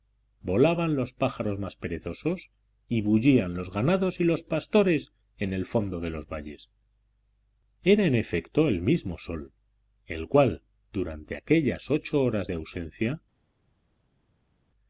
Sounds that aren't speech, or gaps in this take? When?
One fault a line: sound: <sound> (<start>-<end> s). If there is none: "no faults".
no faults